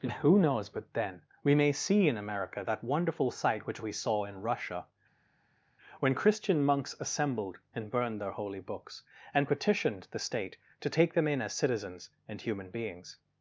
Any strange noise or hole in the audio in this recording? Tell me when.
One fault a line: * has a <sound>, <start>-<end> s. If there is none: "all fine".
all fine